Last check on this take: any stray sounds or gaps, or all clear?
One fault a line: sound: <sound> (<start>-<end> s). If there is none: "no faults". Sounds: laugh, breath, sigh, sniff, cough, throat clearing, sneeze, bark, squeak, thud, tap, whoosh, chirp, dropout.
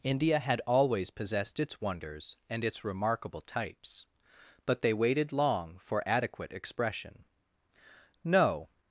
no faults